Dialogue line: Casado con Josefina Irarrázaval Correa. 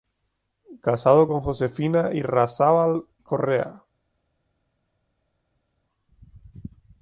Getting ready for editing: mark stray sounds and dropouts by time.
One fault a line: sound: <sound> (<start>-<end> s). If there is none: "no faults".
no faults